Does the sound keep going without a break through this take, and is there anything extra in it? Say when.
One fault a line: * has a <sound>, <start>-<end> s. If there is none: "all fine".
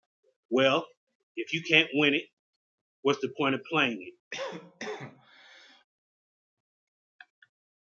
* has a cough, 4.3-5.8 s